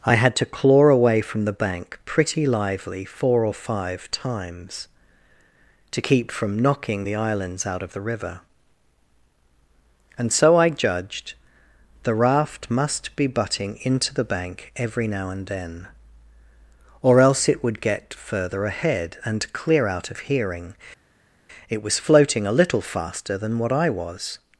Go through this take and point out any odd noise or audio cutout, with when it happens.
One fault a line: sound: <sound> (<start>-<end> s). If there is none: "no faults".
no faults